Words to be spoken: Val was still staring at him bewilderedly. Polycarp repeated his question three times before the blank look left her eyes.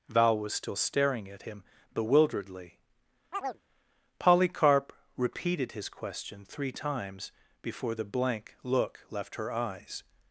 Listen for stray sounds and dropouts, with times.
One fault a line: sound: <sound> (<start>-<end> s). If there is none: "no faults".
sound: chirp (3.3-3.6 s)